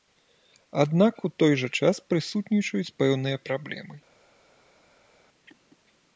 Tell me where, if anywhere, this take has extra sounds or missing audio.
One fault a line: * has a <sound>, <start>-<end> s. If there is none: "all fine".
all fine